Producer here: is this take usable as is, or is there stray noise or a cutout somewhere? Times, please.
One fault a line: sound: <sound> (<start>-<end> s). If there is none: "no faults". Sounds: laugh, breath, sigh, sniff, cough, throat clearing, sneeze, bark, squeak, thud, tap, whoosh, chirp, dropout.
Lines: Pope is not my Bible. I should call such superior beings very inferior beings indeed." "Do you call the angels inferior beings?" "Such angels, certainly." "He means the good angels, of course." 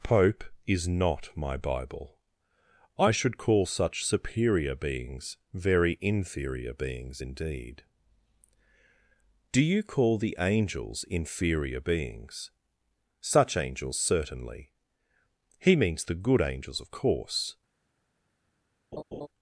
sound: laugh (18.9-19.3 s)